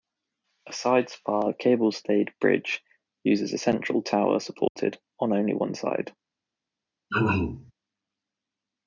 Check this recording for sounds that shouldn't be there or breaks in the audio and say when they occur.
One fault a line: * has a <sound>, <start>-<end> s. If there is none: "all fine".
* has a dropout, 4.7-4.8 s
* has a throat clearing, 7.1-7.7 s